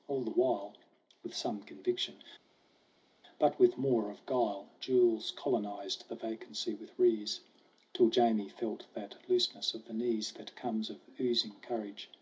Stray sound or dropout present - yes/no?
no